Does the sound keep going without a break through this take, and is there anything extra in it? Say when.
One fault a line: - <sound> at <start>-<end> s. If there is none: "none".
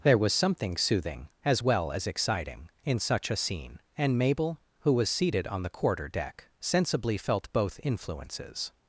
none